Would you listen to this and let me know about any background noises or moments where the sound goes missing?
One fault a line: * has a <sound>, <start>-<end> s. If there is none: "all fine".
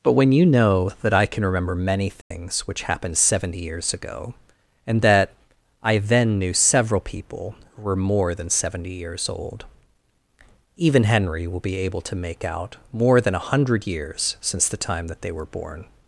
* has a dropout, 2.2-2.3 s